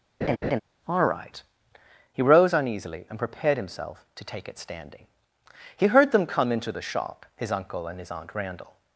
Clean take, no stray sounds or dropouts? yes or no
no